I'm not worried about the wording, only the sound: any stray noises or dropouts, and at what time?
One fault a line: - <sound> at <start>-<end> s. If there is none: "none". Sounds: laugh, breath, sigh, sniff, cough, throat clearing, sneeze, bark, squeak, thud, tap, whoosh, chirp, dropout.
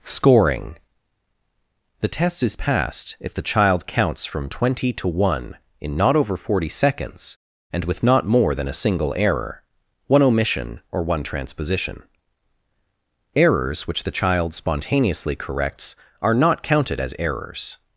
none